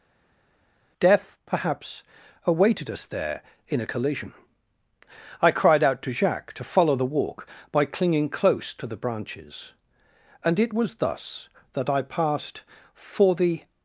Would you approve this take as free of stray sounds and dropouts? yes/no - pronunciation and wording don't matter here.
yes